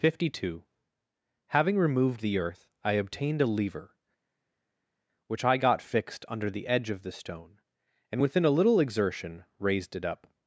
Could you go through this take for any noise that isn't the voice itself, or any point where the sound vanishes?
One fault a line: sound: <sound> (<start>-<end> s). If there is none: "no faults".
no faults